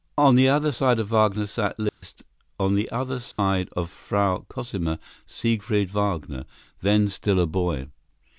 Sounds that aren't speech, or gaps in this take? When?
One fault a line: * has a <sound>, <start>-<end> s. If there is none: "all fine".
* has a dropout, 1.9-2.0 s
* has a dropout, 3.3-3.4 s